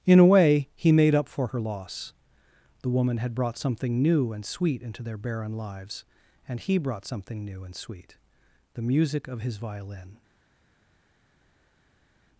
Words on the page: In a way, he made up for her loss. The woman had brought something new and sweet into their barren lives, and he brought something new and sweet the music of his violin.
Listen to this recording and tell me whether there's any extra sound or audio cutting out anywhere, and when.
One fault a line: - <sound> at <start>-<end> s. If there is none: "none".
none